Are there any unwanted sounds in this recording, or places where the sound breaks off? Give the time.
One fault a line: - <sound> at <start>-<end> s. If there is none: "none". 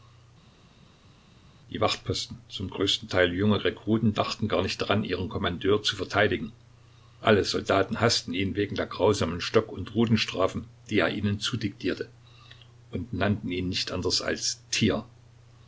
none